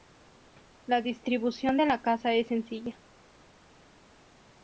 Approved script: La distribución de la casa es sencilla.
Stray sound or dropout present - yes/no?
no